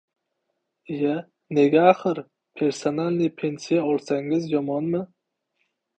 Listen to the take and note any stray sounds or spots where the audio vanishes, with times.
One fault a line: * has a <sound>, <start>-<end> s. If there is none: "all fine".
all fine